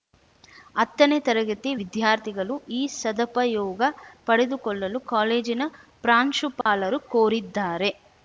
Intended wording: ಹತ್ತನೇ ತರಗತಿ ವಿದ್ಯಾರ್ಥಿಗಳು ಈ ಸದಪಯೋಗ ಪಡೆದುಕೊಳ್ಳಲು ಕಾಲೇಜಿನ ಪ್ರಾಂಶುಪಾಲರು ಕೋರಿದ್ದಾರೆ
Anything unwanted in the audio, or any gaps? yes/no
yes